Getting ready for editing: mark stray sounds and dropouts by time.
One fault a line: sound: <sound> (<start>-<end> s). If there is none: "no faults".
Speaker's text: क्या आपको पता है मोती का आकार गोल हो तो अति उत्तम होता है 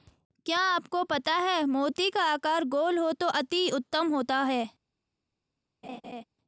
sound: laugh (5.8-6.2 s)